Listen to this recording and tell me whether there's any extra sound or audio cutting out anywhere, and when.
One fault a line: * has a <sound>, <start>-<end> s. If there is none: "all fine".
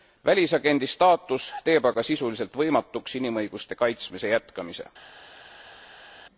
all fine